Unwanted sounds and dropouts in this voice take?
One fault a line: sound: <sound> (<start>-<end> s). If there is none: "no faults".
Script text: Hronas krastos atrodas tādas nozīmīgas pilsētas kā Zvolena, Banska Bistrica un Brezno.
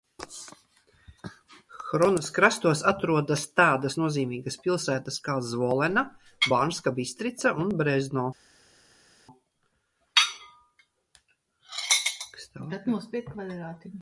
no faults